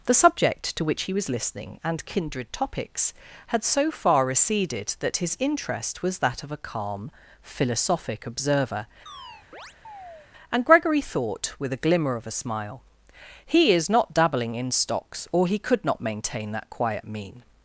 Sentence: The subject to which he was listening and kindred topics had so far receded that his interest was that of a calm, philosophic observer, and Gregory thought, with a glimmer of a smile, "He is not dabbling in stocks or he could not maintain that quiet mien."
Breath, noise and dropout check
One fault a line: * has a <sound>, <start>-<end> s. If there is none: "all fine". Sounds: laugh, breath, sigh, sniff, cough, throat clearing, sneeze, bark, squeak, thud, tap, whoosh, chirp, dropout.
* has a chirp, 9.1-10.3 s